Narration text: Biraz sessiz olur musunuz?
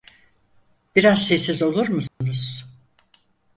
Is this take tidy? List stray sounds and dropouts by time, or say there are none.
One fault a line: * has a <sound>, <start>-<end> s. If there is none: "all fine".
* has a dropout, 2.1-2.2 s